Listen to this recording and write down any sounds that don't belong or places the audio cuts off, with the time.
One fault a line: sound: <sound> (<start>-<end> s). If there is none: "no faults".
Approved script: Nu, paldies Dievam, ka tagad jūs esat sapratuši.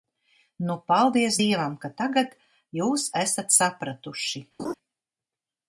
sound: laugh (4.6-4.7 s)